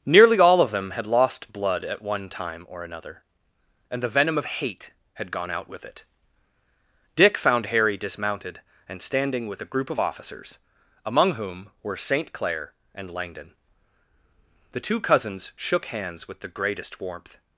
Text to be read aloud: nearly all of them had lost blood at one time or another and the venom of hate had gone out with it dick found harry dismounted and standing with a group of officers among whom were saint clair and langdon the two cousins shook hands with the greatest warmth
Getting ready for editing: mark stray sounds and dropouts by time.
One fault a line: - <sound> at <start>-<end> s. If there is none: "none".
none